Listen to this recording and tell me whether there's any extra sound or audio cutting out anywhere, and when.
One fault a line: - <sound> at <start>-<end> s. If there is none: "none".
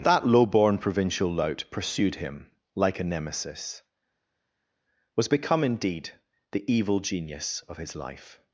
none